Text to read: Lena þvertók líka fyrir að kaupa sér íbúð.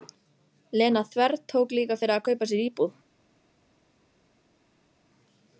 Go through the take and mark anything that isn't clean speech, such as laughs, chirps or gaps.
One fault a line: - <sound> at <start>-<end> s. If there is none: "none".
none